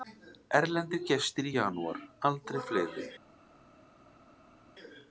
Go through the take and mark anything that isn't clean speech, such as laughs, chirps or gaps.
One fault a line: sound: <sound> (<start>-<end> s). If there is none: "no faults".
no faults